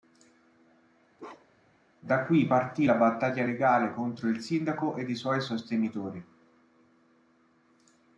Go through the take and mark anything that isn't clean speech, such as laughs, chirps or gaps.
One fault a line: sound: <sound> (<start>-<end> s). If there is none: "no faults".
sound: bark (1.2-1.8 s)